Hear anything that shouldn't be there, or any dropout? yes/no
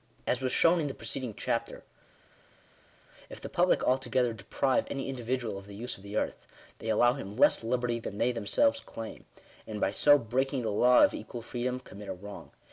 no